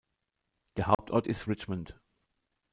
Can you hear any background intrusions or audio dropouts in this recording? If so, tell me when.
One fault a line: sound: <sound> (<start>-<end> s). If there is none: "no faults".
sound: dropout (0.9-1.0 s)